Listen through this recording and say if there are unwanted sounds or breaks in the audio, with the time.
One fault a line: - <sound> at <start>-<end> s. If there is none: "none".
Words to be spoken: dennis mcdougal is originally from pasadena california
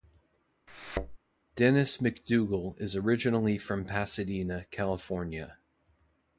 - thud at 0.7-1.2 s